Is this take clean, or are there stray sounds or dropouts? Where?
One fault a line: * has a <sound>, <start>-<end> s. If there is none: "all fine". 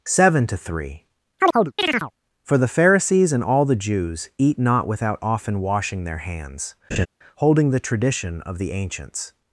* has a chirp, 1.4-2.1 s
* has a laugh, 6.9-7.1 s